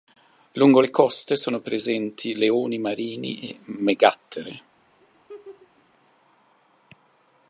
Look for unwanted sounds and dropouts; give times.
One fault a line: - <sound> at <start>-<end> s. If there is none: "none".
- laugh at 5.0-5.8 s